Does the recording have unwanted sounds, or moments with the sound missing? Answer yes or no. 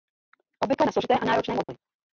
yes